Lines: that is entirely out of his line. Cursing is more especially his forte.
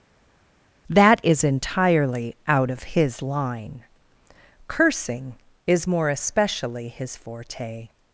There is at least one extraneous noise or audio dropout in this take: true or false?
false